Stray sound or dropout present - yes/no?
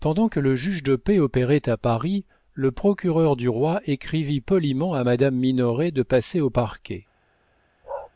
yes